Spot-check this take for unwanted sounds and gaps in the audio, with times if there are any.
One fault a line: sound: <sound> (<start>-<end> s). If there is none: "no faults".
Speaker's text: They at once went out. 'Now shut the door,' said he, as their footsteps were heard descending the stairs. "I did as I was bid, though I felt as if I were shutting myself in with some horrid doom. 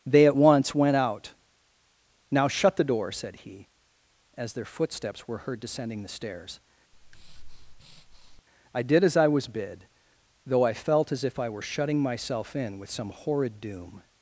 sound: breath (6.9-8.4 s)